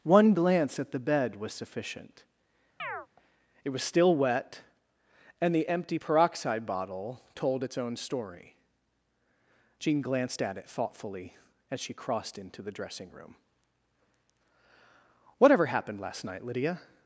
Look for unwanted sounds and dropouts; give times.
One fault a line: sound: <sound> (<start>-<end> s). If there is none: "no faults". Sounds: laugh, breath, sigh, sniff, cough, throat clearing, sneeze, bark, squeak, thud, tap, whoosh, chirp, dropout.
sound: chirp (2.8-3.1 s)